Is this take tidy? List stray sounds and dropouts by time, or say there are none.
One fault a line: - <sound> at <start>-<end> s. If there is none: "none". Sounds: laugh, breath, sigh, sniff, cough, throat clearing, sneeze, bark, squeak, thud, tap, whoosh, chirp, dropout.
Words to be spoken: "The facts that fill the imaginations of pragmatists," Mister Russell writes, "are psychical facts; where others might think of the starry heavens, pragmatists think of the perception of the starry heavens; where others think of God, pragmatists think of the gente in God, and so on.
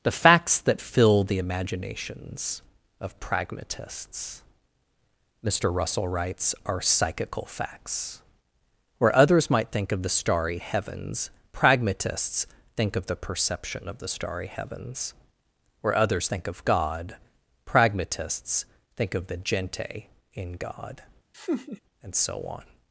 - laugh at 21.3-21.8 s